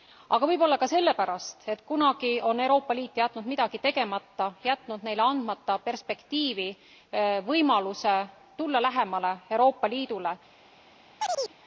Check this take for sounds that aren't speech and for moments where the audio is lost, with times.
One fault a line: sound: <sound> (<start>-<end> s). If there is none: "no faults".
sound: chirp (11.2-11.5 s)